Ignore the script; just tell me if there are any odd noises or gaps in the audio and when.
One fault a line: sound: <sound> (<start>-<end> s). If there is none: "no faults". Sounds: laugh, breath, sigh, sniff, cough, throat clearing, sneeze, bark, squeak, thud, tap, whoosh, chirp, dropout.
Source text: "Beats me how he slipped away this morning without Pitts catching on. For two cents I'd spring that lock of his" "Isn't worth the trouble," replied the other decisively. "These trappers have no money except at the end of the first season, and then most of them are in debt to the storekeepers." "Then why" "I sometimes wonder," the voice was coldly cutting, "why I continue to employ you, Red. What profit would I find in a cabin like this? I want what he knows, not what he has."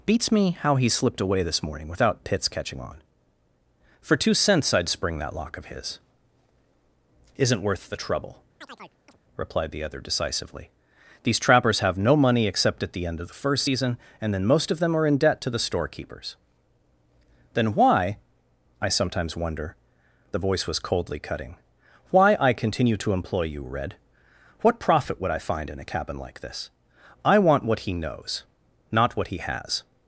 sound: chirp (8.6-9.2 s)